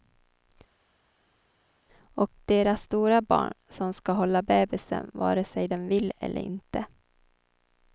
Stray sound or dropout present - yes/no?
no